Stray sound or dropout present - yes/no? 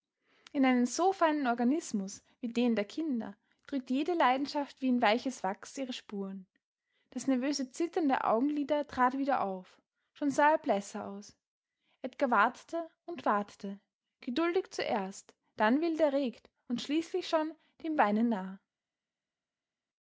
no